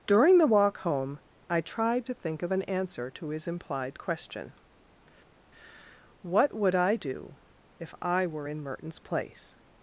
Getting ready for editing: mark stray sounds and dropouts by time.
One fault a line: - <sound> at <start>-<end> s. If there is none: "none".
none